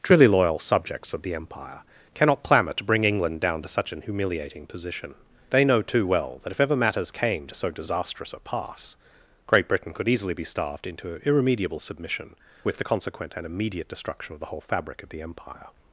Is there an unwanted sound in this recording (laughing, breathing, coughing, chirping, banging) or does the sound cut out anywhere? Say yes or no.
no